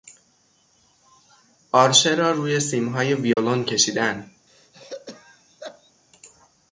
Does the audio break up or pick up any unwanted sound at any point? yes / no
yes